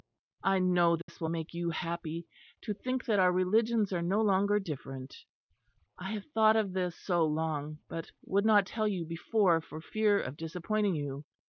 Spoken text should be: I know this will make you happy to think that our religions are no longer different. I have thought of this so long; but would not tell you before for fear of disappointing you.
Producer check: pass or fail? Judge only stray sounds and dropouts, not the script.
fail